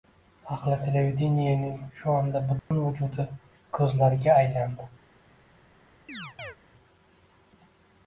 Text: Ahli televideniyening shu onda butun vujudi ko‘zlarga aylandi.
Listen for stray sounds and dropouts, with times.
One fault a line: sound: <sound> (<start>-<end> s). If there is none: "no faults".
sound: dropout (2.6-2.7 s)
sound: chirp (6.1-6.6 s)